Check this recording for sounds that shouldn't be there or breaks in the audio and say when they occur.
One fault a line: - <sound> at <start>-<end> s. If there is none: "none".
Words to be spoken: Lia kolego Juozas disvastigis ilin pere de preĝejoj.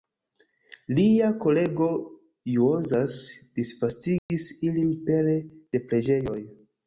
- dropout at 4.2-4.3 s